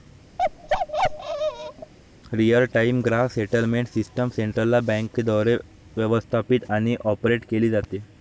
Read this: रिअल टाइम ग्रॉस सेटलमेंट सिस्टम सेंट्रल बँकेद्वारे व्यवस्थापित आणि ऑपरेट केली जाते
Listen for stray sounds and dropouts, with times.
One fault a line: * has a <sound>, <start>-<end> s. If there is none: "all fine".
* has a bark, 0.4-1.9 s